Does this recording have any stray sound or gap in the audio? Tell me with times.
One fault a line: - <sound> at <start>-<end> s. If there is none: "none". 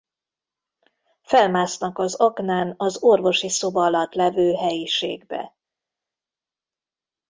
none